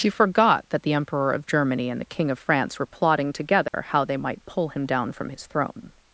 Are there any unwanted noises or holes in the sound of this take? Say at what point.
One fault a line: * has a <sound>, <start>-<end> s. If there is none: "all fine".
* has a dropout, 3.7-3.7 s